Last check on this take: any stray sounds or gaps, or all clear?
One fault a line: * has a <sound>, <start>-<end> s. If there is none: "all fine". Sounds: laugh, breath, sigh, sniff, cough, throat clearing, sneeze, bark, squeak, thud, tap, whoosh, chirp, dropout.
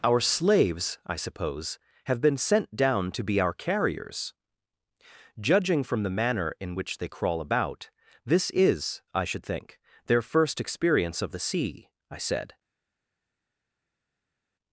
all fine